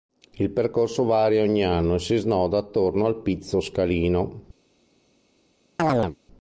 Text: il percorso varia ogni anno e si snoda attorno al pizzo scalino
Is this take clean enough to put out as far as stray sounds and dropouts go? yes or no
no